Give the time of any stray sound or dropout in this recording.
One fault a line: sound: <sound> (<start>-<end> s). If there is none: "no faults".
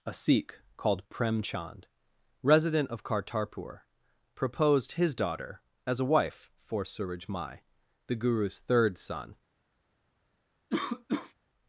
sound: cough (10.7-11.3 s)